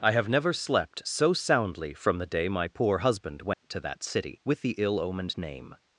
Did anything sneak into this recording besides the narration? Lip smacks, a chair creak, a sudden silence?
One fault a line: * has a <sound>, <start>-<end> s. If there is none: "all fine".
* has a dropout, 3.5-3.6 s